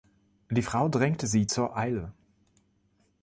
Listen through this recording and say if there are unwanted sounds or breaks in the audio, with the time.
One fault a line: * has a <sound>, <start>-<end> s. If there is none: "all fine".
all fine